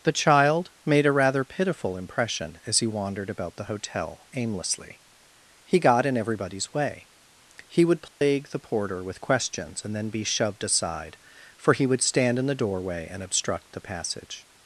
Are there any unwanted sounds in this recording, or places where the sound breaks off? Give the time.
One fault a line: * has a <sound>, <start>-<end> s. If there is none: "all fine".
* has a dropout, 8.1-8.2 s